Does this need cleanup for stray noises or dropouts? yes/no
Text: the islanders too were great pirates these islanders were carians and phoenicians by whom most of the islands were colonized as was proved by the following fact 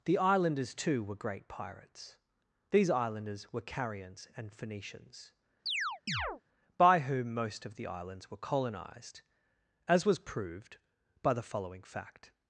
yes